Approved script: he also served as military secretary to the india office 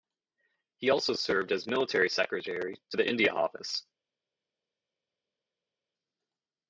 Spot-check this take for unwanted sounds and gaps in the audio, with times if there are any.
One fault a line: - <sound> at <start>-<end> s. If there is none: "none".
none